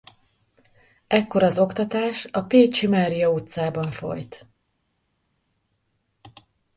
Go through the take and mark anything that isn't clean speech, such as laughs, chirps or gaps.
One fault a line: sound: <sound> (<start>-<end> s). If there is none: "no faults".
no faults